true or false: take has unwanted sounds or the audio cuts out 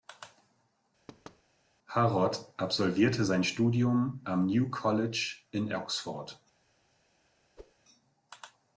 true